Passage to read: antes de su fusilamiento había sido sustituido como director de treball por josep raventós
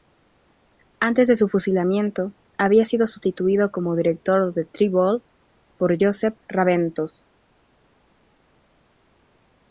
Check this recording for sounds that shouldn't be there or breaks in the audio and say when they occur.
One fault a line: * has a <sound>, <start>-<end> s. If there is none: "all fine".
all fine